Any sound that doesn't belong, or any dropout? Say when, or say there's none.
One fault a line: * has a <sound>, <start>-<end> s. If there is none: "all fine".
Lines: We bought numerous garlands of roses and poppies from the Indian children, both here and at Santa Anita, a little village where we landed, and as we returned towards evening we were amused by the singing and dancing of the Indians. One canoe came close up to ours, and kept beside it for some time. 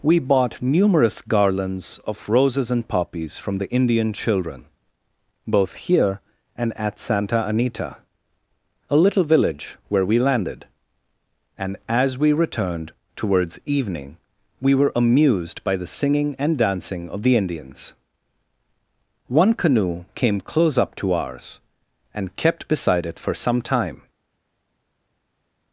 all fine